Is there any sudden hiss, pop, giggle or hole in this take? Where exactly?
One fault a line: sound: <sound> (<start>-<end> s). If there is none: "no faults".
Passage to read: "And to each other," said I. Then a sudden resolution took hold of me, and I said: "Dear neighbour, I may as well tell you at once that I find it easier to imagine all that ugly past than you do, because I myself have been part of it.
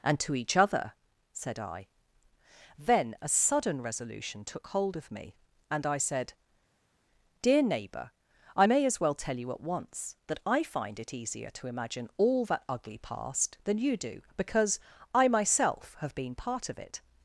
no faults